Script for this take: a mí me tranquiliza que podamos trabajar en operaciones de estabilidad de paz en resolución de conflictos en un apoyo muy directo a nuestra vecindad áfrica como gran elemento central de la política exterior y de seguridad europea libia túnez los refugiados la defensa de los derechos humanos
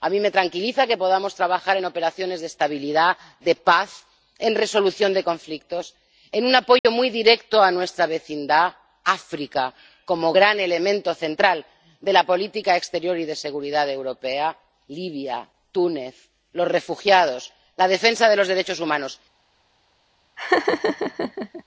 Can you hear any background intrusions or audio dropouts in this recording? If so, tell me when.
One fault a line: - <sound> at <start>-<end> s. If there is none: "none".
- dropout at 6.8-6.8 s
- laugh at 20.4-21.6 s